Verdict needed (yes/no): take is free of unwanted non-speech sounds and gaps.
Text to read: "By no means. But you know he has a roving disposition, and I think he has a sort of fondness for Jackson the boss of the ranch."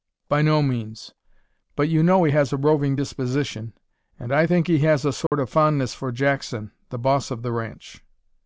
no